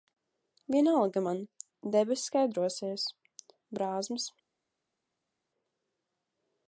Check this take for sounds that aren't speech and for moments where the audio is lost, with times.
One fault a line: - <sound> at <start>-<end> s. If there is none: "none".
none